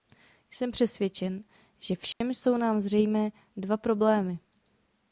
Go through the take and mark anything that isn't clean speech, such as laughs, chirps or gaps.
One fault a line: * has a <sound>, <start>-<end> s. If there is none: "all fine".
* has a dropout, 2.1-2.2 s